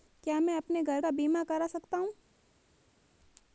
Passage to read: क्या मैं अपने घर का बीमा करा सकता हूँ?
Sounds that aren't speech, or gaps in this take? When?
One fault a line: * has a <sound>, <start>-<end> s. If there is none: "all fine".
all fine